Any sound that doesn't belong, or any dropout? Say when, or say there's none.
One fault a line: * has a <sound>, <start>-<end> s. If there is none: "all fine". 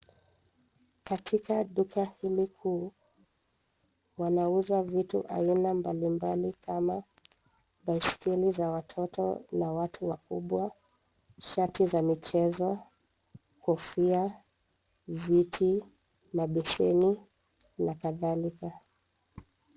all fine